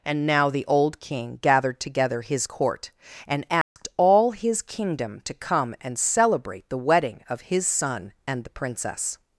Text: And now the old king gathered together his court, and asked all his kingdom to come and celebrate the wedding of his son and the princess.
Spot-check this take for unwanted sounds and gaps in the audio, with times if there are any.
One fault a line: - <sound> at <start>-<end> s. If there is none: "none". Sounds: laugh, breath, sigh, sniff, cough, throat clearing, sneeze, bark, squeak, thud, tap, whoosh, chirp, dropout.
- dropout at 3.6-3.8 s